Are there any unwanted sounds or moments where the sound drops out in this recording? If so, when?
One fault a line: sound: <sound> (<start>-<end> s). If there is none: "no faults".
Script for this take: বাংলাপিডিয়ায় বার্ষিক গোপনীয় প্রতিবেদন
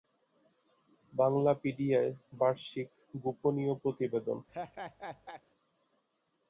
sound: laugh (4.5-5.4 s)